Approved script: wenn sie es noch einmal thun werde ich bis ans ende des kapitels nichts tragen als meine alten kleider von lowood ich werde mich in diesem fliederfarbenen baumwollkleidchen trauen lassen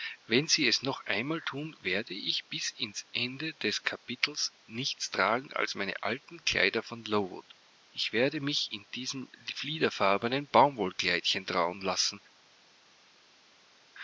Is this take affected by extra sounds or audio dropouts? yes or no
no